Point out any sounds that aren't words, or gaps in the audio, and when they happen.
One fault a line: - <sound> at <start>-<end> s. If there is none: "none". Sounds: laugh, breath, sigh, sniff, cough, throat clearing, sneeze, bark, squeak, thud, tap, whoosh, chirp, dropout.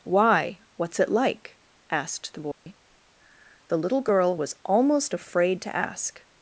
- dropout at 2.5-2.7 s